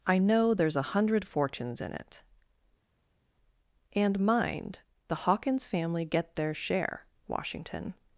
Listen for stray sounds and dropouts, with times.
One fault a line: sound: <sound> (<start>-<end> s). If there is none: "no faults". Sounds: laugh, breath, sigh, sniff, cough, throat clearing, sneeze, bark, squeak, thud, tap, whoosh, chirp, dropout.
no faults